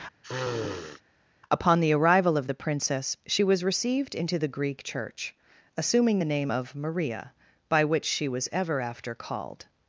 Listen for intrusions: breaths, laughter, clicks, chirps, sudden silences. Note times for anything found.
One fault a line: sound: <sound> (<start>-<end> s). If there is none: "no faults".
sound: sniff (0.2-1.0 s)